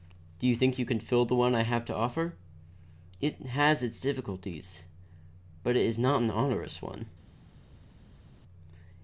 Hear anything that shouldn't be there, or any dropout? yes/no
no